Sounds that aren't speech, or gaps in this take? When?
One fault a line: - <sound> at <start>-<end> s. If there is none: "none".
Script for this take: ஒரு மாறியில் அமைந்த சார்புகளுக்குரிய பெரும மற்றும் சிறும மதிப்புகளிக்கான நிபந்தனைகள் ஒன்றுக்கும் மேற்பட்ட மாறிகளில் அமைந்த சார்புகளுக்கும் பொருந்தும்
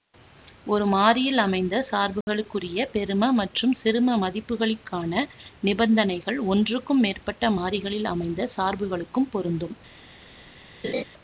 - dropout at 2.2-2.3 s
- laugh at 10.8-11.0 s